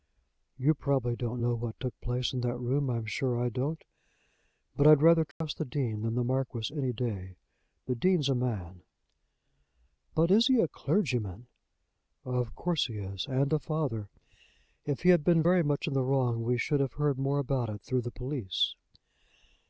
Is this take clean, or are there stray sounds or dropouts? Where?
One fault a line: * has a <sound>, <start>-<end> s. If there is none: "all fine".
* has a dropout, 5.3-5.4 s